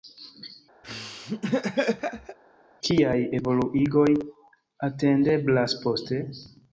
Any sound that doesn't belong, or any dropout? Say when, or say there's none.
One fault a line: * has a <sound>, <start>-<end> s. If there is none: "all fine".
* has a laugh, 0.8-2.4 s